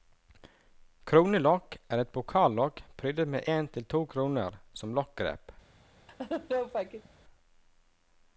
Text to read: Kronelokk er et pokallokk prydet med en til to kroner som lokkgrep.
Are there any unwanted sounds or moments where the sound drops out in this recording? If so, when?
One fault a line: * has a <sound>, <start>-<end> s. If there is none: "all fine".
* has a laugh, 6.1-7.1 s